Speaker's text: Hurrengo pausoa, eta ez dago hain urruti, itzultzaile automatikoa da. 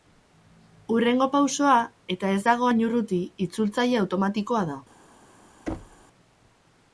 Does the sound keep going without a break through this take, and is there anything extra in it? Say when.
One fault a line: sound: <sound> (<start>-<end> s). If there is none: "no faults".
sound: thud (5.7-6.0 s)